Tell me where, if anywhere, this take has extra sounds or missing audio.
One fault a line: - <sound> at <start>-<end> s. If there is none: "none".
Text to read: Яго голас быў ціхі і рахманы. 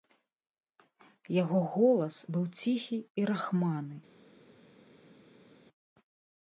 none